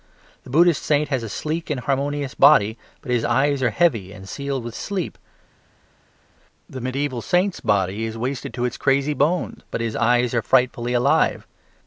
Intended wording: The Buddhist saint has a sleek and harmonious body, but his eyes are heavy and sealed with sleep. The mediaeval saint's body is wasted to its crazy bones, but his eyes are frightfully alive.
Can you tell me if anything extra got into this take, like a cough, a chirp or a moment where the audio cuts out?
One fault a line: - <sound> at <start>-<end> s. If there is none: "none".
none